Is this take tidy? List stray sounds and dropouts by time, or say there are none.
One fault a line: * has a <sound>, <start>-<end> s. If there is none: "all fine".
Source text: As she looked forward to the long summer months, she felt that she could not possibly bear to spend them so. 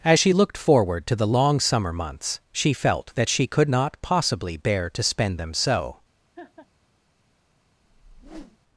* has a laugh, 6.4-6.7 s
* has a whoosh, 7.8-8.6 s